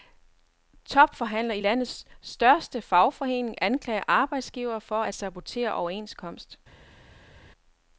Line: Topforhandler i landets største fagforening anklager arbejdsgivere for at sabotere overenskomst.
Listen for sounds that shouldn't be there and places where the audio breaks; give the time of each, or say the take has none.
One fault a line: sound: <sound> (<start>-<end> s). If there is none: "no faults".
no faults